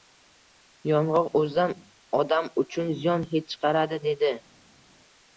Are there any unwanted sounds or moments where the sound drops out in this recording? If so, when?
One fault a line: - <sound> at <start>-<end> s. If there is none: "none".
none